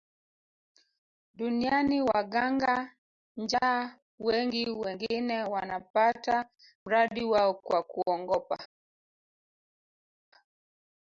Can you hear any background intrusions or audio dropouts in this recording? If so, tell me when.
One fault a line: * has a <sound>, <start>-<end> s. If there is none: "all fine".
all fine